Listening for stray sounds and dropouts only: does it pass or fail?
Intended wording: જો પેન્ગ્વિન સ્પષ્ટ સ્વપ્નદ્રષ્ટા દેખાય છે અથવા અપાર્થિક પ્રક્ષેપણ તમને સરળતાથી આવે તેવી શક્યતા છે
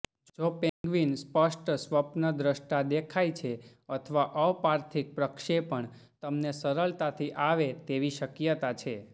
fail